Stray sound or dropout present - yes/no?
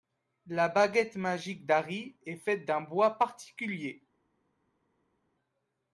no